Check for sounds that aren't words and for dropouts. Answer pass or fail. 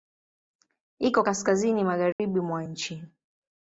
fail